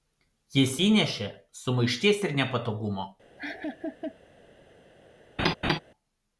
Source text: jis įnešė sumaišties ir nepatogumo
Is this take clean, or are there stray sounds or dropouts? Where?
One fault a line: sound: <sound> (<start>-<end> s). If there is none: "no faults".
sound: laugh (3.4-4.2 s)
sound: laugh (5.4-5.8 s)